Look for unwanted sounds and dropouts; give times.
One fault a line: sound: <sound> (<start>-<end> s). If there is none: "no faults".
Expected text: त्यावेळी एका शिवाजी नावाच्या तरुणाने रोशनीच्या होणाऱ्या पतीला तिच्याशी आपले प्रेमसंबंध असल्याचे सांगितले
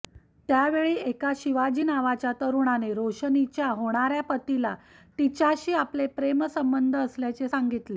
no faults